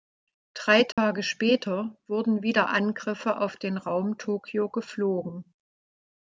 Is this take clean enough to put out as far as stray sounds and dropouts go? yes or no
no